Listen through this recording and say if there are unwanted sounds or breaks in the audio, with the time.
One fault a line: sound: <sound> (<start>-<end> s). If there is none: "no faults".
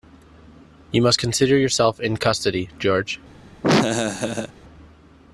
sound: laugh (3.6-4.5 s)